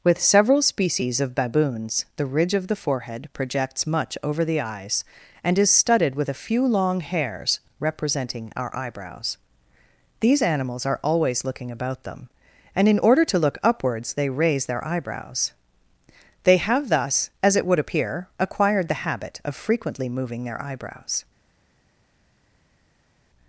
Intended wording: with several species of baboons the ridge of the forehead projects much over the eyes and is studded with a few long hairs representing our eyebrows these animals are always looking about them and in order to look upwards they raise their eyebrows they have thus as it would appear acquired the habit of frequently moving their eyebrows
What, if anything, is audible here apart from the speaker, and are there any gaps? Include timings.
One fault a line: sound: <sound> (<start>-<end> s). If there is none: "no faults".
no faults